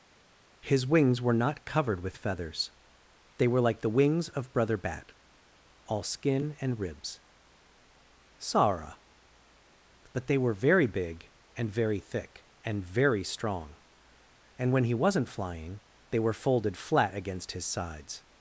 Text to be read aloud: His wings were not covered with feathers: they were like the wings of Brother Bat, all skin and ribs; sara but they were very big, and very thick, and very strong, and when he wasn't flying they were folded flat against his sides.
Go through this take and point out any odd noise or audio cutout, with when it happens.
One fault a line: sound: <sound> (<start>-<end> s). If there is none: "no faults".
no faults